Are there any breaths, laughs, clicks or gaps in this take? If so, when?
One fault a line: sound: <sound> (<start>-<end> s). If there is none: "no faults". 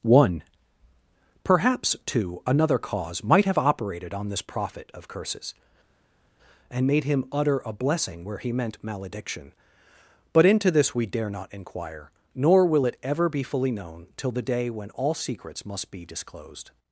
no faults